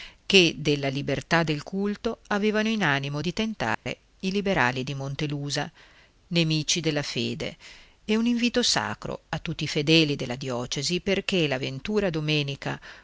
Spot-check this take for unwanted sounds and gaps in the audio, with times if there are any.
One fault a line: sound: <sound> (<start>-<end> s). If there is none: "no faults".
sound: dropout (3.7-3.9 s)